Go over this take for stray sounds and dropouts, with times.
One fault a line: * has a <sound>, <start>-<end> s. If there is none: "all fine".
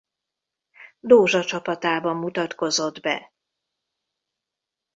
all fine